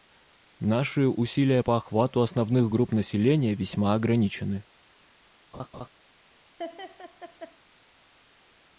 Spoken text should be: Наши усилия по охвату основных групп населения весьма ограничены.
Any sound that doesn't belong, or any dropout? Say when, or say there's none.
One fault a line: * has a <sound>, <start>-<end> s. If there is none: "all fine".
* has a laugh, 5.5-5.9 s
* has a laugh, 6.6-7.6 s